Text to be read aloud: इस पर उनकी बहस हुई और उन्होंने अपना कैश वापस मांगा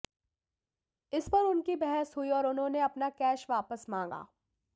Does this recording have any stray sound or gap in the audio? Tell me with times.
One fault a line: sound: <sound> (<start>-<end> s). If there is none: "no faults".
no faults